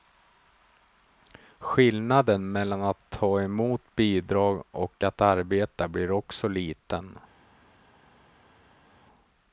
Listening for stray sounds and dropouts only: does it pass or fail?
pass